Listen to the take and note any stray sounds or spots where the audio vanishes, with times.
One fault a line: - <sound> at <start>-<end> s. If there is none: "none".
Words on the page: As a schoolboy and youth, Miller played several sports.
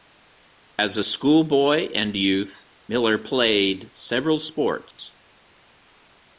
- dropout at 4.9-5.0 s